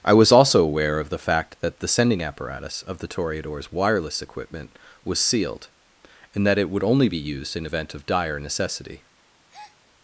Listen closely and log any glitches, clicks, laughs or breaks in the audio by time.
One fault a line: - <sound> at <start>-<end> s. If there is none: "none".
- breath at 9.5-9.8 s